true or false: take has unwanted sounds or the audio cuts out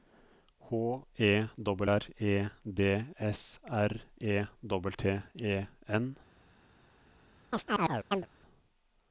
true